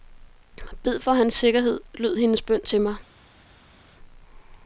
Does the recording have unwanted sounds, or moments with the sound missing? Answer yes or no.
no